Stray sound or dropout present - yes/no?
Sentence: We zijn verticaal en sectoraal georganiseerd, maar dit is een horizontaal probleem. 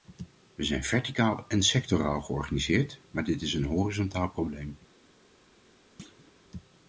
yes